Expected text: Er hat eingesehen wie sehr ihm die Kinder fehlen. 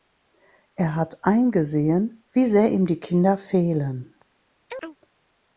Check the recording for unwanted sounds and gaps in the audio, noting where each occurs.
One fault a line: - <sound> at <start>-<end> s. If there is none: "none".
- chirp at 4.7-5.0 s